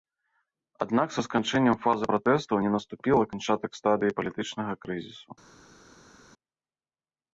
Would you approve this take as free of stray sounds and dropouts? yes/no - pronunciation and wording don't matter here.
yes